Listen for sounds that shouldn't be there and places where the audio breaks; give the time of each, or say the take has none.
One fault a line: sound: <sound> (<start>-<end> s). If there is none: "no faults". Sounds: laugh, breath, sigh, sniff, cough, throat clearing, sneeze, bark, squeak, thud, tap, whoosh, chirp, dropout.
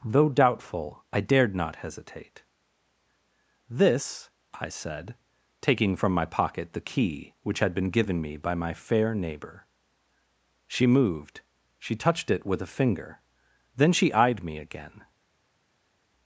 no faults